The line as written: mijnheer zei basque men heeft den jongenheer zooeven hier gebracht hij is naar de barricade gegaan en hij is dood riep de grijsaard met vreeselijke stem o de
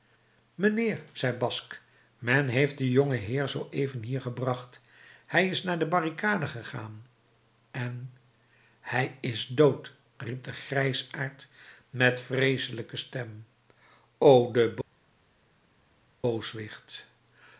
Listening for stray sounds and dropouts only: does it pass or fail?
pass